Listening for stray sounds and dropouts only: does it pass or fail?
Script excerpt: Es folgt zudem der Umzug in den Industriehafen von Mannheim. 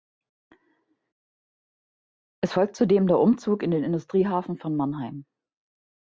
pass